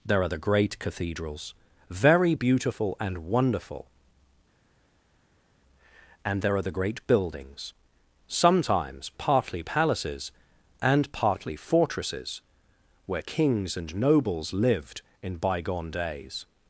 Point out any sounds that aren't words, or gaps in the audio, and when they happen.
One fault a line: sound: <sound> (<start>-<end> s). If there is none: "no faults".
no faults